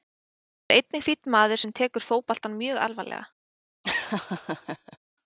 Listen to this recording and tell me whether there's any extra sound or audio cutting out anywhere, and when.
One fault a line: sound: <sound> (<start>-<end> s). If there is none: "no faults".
sound: laugh (3.8-5.0 s)